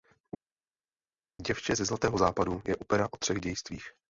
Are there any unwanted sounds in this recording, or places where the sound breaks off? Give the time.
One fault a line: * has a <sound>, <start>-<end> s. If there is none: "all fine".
all fine